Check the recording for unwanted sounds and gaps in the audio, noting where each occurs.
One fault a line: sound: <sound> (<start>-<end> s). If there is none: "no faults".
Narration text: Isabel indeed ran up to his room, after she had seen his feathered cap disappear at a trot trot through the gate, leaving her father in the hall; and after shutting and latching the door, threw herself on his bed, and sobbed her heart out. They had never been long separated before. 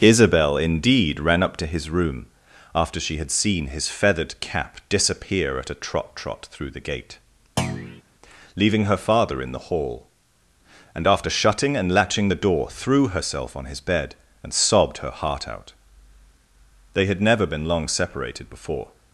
sound: thud (7.6-8.0 s)